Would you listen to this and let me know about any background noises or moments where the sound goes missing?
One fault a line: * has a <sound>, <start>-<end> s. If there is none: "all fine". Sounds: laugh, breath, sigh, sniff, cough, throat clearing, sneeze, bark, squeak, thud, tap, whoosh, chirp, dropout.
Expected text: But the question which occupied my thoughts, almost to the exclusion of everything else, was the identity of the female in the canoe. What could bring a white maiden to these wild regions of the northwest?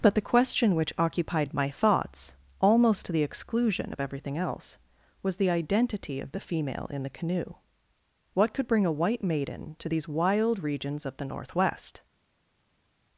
all fine